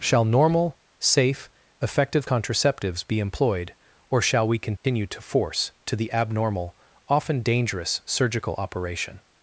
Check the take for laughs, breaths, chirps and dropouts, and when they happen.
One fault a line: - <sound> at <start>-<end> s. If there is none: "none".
- dropout at 4.8-4.8 s